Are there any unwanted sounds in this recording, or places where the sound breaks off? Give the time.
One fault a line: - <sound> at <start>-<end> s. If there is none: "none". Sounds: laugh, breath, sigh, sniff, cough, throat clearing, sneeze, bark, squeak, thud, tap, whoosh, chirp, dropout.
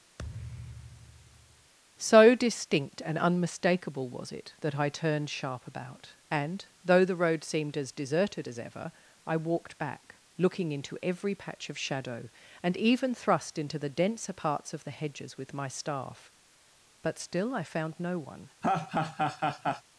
- thud at 0.2-1.7 s
- laugh at 18.6-19.8 s